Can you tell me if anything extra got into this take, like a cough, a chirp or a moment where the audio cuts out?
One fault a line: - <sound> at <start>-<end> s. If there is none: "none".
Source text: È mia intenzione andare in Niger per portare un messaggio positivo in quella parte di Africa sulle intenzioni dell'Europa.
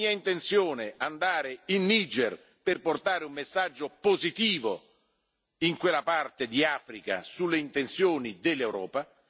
none